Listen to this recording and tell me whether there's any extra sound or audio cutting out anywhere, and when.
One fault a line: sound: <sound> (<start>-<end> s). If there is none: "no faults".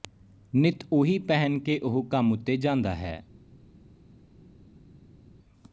no faults